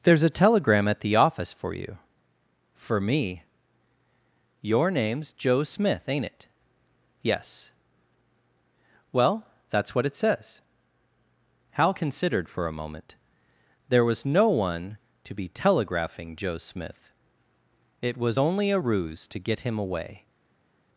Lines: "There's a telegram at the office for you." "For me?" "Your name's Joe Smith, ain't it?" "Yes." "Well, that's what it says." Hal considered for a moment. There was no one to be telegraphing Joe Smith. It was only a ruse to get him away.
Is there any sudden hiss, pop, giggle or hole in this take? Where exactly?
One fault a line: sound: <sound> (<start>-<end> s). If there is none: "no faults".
no faults